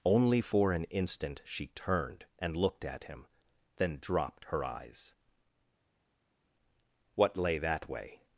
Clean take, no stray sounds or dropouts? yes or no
yes